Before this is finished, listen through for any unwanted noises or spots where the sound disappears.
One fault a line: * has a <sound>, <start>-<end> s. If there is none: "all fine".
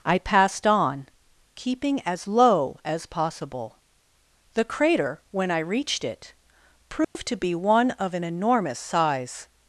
* has a dropout, 7.0-7.2 s